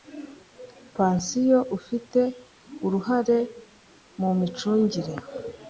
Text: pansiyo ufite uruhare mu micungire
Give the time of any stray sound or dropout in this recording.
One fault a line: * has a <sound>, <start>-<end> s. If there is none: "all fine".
all fine